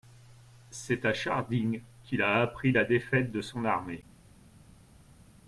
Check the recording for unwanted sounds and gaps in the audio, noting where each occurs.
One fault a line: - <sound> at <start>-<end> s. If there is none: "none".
none